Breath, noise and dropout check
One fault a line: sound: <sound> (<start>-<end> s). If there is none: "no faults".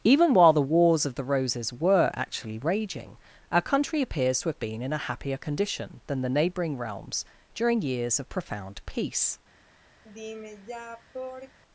sound: sigh (10.0-11.6 s)